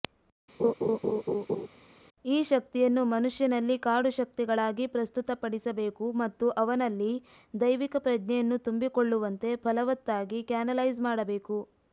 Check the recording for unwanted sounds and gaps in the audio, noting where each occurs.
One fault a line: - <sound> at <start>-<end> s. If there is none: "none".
- laugh at 0.6-1.7 s